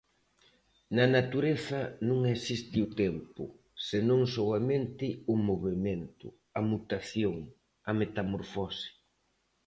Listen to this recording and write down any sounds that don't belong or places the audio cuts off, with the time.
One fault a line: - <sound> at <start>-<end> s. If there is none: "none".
none